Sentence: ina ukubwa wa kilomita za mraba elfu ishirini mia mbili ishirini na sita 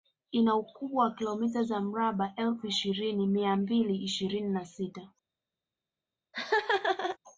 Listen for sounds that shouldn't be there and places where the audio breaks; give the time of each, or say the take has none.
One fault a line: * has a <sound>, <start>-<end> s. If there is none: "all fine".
* has a laugh, 6.3-7.2 s